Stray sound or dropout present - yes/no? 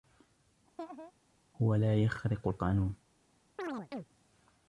yes